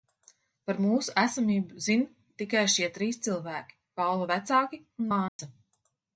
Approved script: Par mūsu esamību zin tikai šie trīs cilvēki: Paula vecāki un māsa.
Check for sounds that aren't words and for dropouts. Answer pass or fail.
fail